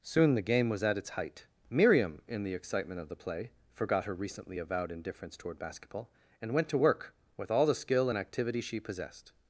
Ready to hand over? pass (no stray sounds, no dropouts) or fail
pass